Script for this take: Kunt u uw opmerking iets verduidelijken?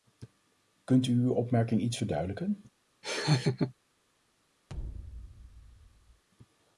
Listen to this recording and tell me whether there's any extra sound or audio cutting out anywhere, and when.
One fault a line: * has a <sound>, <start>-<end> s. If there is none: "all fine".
* has a laugh, 3.0-3.7 s
* has a thud, 4.7-6.2 s